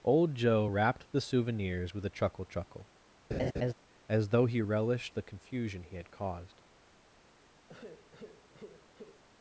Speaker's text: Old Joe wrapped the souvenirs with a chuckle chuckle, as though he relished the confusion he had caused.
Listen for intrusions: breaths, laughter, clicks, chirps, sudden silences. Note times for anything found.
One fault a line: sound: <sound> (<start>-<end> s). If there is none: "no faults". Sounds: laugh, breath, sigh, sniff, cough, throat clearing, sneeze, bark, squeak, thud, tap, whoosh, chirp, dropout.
sound: laugh (3.3-3.7 s)
sound: sigh (7.7-9.2 s)